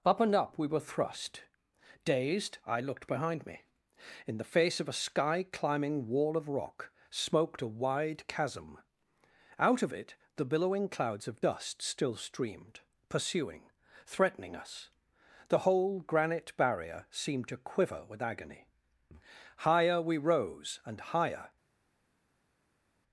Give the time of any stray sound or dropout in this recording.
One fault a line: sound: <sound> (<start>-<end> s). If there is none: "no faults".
no faults